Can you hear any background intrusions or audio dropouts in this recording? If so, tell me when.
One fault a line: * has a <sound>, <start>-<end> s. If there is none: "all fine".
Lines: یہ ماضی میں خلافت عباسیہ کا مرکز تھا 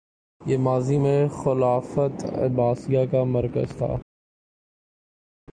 all fine